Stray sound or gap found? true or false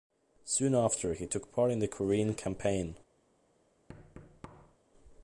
true